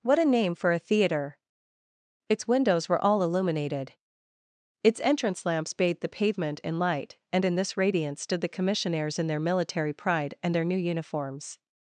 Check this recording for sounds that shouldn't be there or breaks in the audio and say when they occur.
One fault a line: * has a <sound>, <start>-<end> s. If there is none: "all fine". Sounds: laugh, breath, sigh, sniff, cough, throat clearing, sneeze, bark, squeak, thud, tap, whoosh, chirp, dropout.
all fine